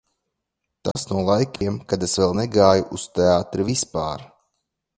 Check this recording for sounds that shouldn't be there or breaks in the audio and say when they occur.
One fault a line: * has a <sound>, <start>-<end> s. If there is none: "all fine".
* has a dropout, 0.9-1.0 s
* has a dropout, 1.6-1.6 s